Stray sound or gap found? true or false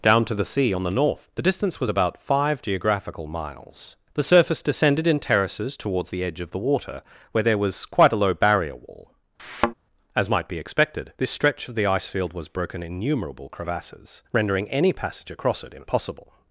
true